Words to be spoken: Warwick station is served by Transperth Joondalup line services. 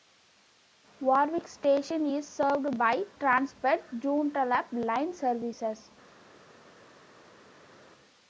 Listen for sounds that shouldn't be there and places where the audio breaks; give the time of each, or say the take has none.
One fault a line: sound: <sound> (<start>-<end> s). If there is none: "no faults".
no faults